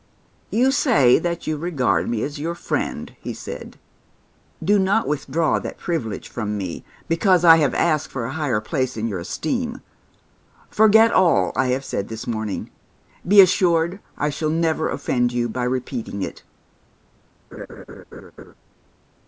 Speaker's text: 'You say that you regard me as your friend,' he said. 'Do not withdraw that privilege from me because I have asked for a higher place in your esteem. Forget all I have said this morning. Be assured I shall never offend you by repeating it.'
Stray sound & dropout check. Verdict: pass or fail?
fail